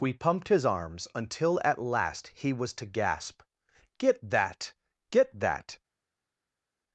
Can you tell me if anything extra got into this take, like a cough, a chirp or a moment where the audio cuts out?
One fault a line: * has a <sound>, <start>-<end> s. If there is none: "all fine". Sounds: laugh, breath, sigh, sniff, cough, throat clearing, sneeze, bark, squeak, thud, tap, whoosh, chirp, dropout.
all fine